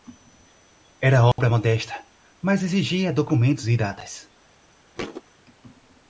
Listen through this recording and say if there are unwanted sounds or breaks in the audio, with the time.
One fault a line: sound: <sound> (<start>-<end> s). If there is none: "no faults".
sound: dropout (1.3-1.4 s)
sound: thud (5.0-5.2 s)